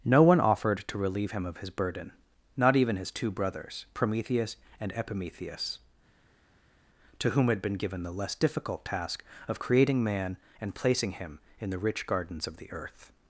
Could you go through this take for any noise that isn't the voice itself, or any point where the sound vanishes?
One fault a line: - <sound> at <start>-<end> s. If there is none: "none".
none